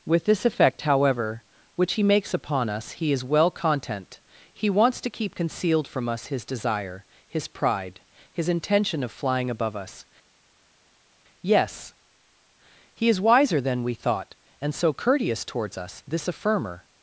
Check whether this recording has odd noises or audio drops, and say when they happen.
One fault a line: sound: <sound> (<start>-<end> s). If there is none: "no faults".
no faults